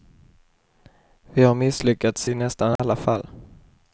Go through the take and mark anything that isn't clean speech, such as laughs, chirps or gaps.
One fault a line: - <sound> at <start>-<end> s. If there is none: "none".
- dropout at 2.8-2.8 s